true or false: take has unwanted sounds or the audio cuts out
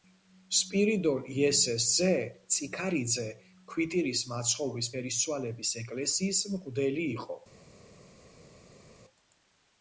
false